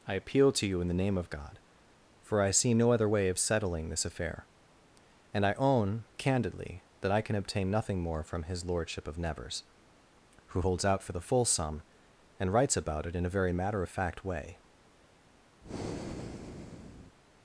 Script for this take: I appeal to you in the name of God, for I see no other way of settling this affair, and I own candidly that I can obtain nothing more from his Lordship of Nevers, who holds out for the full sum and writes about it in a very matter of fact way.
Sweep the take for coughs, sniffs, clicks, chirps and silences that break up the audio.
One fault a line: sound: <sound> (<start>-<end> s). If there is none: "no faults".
sound: breath (15.6-17.2 s)